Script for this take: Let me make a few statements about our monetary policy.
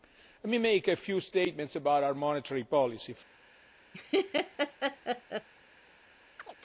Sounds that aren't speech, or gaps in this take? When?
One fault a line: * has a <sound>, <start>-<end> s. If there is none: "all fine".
* has a laugh, 3.9-5.5 s
* has a chirp, 6.4-6.6 s